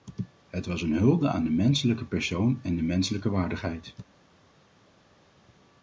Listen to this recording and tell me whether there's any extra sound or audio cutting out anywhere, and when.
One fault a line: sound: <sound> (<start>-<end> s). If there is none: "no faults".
no faults